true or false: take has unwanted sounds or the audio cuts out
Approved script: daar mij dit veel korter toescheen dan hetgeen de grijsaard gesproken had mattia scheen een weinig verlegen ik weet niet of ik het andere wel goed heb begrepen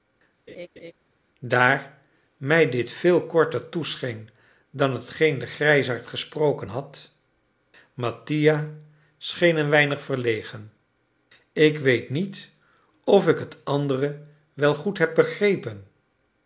true